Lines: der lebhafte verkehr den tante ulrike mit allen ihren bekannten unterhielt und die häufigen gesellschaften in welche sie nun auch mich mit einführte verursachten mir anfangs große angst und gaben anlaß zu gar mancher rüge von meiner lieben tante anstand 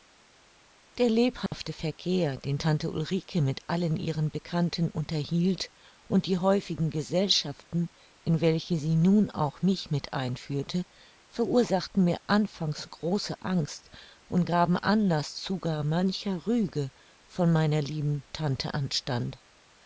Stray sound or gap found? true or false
true